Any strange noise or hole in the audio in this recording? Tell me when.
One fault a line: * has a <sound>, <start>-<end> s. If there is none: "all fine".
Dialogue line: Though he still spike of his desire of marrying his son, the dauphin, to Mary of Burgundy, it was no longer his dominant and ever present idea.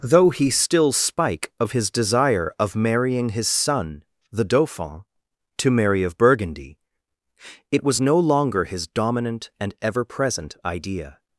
all fine